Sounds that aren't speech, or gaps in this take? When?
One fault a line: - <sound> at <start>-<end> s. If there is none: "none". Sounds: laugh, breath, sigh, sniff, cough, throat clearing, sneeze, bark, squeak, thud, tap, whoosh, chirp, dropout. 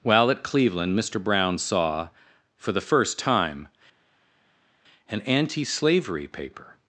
none